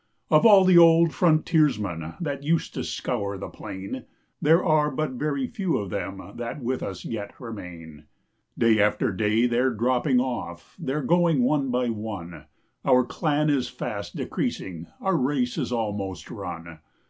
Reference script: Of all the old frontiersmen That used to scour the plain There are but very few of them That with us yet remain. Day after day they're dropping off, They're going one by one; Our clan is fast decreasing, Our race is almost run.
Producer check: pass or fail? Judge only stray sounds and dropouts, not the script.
pass